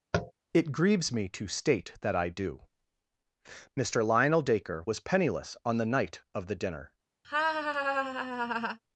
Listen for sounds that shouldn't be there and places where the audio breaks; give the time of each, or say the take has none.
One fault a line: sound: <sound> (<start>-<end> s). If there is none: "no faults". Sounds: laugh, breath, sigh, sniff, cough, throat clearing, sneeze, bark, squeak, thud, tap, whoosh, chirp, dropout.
sound: tap (0.1-0.3 s)
sound: laugh (7.2-8.8 s)